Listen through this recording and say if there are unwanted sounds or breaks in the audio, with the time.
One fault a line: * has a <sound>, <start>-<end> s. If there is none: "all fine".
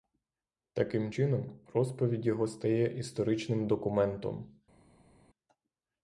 all fine